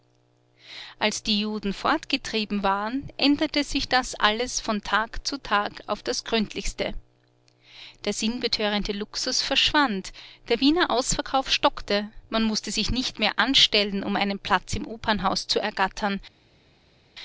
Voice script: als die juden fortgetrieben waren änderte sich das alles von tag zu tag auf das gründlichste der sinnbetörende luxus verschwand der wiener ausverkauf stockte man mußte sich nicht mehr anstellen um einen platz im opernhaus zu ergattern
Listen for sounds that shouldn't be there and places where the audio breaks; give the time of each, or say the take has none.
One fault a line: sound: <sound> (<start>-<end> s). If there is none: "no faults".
no faults